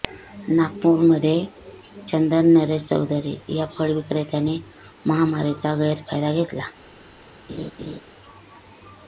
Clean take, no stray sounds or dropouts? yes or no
no